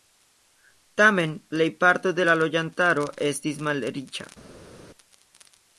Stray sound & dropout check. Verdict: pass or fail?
pass